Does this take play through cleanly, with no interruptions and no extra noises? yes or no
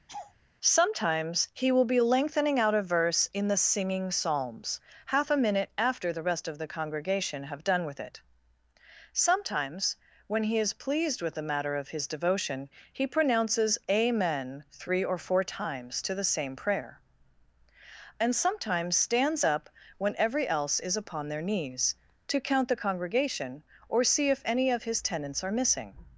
no